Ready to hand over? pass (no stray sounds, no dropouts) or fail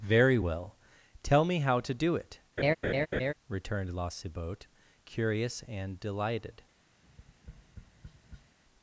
fail